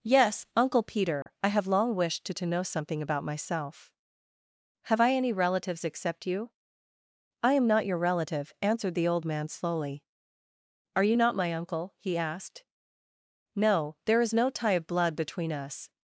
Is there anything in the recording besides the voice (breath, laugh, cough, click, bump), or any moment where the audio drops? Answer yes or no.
yes